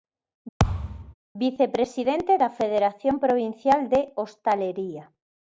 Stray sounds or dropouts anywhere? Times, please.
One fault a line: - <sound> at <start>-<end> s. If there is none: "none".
- thud at 0.6-1.1 s